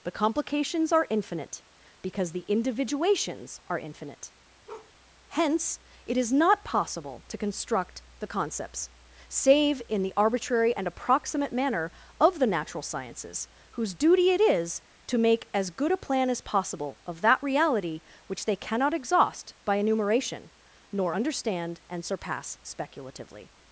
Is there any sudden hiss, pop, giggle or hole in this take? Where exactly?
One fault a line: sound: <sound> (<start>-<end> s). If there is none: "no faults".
sound: bark (4.7-4.9 s)